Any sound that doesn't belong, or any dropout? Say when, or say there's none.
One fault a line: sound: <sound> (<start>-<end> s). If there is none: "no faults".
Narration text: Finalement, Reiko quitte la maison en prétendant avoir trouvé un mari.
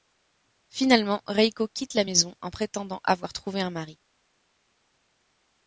no faults